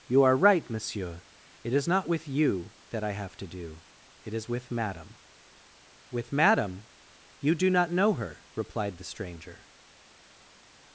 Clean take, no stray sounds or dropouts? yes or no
yes